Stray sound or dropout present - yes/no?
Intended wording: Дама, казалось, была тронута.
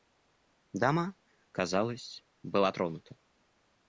no